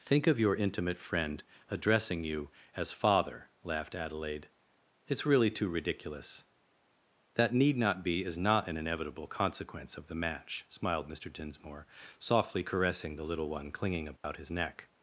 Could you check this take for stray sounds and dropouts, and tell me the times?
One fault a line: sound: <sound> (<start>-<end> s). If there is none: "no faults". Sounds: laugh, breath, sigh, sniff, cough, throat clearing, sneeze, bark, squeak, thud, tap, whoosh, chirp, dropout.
sound: dropout (14.2-14.2 s)